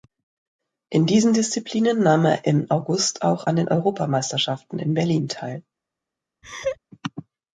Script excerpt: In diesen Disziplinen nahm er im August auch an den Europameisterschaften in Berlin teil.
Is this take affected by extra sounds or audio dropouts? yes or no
yes